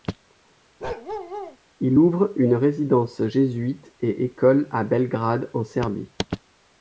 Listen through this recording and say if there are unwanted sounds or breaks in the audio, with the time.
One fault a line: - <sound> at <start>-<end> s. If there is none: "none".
- bark at 0.8-1.6 s